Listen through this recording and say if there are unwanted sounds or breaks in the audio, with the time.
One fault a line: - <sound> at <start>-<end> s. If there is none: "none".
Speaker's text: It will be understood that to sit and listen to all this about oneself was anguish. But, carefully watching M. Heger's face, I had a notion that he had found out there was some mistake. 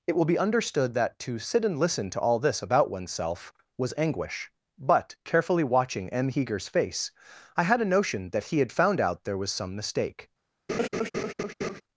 - laugh at 10.7-11.8 s